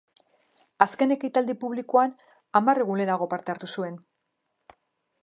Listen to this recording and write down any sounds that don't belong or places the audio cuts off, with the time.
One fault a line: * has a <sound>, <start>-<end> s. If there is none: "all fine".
all fine